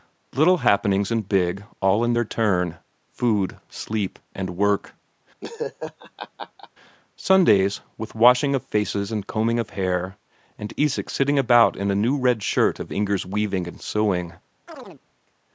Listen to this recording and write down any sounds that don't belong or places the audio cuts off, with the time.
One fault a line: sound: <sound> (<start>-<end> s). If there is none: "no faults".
sound: laugh (5.4-6.7 s)
sound: chirp (14.7-15.0 s)